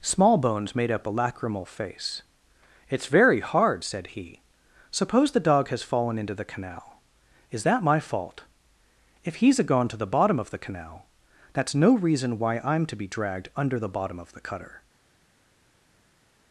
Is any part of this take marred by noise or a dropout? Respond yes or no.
no